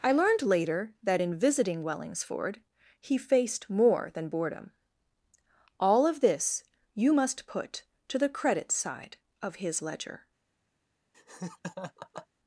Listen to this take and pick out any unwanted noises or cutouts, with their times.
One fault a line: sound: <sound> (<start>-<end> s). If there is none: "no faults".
sound: laugh (11.1-12.3 s)